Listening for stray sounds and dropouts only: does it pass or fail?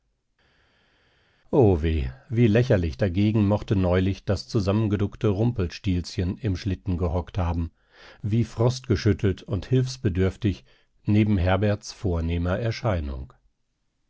pass